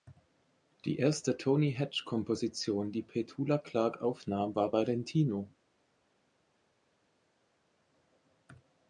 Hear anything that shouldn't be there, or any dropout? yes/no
no